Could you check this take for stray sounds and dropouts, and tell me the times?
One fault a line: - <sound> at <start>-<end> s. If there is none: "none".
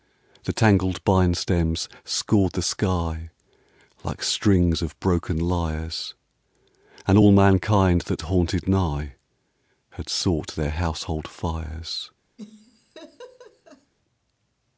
- laugh at 12.4-13.9 s